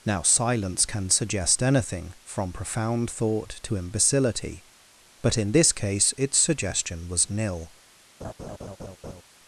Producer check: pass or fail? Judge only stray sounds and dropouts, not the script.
fail